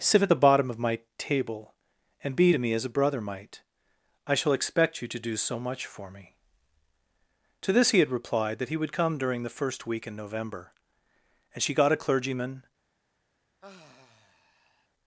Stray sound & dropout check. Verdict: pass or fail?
fail